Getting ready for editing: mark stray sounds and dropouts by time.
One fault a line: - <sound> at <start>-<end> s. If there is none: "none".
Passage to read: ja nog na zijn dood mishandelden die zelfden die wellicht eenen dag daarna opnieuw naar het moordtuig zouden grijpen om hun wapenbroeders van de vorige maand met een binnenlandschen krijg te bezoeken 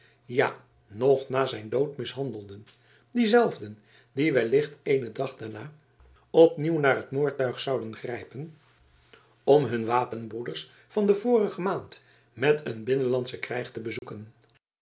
- dropout at 14.0-14.0 s